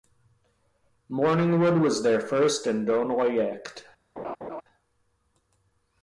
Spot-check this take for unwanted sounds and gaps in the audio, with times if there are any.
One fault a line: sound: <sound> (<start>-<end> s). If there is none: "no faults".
sound: laugh (4.2-4.6 s)